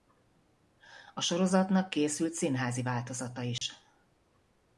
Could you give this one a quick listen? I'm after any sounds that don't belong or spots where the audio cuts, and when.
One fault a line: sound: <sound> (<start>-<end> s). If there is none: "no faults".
sound: dropout (3.6-3.6 s)